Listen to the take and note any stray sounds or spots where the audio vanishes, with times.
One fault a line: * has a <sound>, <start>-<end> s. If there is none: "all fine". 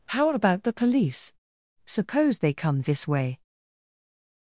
all fine